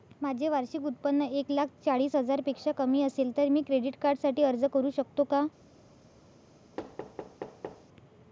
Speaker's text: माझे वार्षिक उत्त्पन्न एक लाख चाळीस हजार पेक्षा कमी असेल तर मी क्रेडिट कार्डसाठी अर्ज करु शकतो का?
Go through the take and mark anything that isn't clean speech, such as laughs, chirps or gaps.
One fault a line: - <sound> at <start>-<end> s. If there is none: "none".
- thud at 6.8-7.9 s